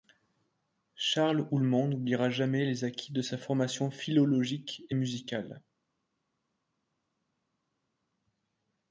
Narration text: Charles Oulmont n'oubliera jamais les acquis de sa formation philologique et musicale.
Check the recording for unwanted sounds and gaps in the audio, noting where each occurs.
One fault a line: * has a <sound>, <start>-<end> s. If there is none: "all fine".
all fine